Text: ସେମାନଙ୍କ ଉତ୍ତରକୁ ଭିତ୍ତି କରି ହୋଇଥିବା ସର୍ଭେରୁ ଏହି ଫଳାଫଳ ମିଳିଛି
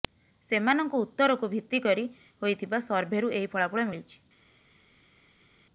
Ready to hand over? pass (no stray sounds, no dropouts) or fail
pass